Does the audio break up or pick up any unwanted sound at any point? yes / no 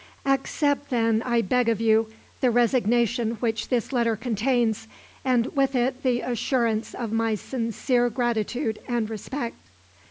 no